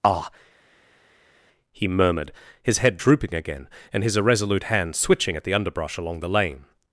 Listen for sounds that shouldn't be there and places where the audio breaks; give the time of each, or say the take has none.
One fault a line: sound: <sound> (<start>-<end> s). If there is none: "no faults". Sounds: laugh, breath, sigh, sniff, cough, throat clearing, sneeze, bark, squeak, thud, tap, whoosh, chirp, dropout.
no faults